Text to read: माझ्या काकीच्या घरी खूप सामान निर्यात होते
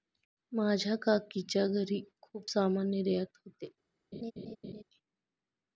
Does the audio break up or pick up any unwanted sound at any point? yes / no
yes